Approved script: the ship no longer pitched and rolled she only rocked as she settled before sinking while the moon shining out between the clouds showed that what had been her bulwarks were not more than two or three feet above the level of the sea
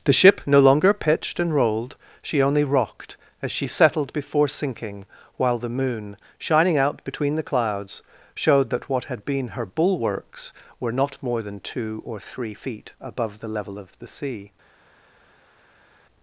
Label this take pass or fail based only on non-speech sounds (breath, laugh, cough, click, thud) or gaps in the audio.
pass